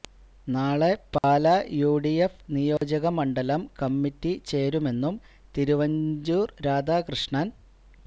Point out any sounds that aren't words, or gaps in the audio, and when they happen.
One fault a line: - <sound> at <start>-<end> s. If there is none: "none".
- dropout at 1.2-1.2 s
- dropout at 2.8-2.8 s